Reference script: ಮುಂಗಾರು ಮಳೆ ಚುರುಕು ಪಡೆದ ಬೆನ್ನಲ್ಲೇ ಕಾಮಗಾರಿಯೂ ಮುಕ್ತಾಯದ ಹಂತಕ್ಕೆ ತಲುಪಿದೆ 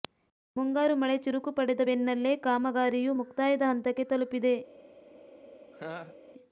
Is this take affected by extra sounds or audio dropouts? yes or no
yes